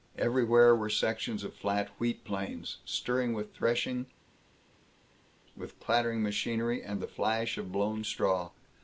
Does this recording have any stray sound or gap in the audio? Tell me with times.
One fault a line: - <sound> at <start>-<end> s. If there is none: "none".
none